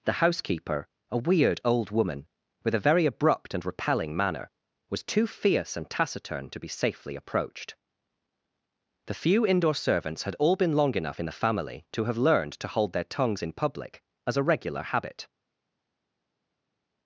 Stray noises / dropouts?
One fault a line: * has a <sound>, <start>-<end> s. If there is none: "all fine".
all fine